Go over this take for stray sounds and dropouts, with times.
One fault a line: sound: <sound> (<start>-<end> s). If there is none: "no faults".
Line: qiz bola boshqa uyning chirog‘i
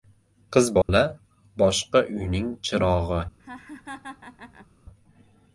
sound: dropout (0.8-0.9 s)
sound: laugh (3.4-4.7 s)